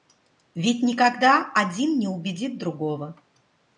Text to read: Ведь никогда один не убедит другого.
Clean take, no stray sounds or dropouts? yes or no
yes